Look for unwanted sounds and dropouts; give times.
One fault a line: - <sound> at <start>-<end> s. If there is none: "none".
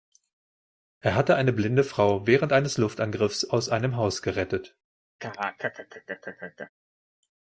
- laugh at 5.2-6.7 s